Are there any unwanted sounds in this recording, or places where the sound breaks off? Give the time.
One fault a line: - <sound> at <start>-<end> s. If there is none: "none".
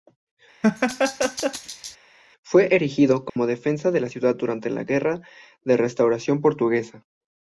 - laugh at 0.6-2.0 s
- dropout at 3.3-3.4 s